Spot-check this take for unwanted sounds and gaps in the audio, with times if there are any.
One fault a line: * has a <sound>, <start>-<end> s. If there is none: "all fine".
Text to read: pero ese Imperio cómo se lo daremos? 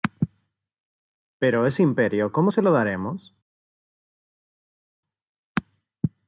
all fine